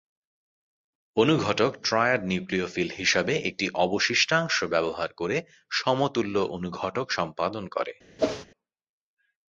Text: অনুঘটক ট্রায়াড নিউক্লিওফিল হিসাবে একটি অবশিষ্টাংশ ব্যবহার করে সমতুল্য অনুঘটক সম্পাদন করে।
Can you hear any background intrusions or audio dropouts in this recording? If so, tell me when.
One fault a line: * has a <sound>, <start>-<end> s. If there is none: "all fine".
* has a whoosh, 8.2-8.5 s